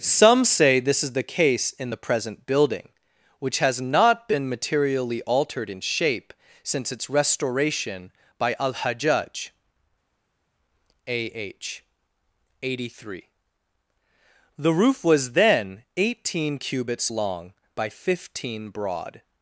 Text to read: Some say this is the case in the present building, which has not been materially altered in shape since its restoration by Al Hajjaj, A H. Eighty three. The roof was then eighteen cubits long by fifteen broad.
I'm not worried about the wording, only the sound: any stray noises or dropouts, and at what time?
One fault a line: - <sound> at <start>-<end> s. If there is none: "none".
none